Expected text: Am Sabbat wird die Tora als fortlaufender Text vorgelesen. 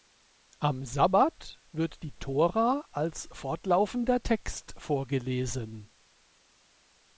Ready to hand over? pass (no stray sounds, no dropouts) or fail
pass